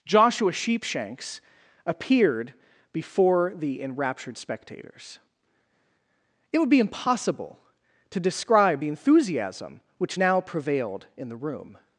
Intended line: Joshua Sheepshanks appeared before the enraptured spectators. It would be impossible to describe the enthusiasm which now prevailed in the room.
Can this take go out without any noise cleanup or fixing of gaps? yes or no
yes